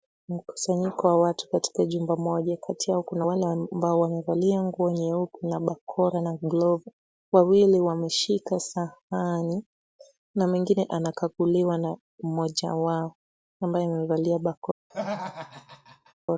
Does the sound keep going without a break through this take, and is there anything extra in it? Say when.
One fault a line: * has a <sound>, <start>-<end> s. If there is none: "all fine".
* has a laugh, 14.9-16.1 s